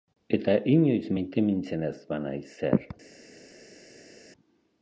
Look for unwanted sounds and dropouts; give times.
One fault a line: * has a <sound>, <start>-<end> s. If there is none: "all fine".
all fine